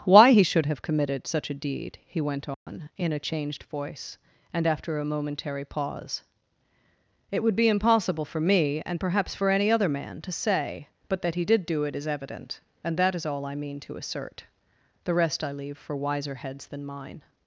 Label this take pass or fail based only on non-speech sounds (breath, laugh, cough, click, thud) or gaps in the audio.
fail